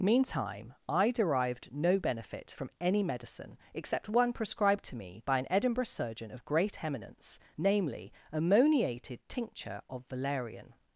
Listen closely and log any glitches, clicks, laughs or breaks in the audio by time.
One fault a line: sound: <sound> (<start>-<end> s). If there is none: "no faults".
no faults